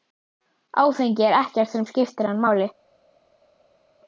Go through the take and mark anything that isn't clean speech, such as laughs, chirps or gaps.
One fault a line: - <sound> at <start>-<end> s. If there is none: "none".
none